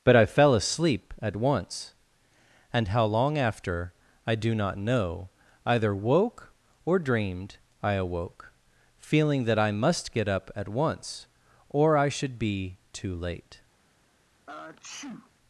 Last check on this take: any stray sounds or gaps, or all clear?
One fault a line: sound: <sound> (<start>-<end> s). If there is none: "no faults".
sound: sneeze (14.5-15.3 s)